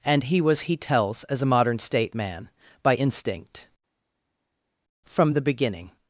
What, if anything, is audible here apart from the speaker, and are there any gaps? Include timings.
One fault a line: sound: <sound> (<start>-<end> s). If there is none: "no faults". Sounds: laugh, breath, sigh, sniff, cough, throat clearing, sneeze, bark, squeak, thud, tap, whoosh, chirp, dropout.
no faults